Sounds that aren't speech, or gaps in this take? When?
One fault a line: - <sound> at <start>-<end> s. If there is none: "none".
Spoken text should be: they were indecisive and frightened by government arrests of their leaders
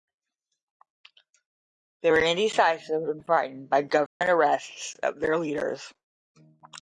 - dropout at 4.1-4.2 s